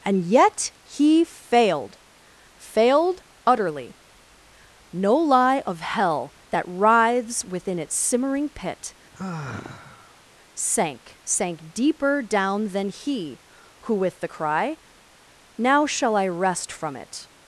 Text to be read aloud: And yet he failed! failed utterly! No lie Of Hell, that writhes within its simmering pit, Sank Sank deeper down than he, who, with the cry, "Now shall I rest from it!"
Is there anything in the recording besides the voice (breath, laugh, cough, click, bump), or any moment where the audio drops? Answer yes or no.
yes